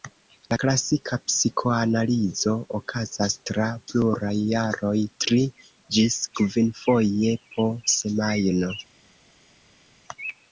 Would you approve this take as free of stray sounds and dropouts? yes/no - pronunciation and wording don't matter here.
yes